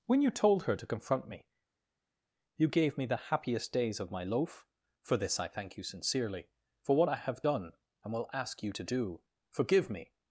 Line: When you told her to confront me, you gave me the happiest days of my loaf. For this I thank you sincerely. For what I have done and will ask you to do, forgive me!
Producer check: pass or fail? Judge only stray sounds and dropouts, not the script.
pass